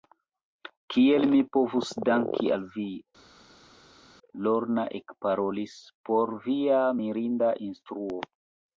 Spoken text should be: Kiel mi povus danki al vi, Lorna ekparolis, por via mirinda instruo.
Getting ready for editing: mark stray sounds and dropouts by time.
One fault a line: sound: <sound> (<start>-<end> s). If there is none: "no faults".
no faults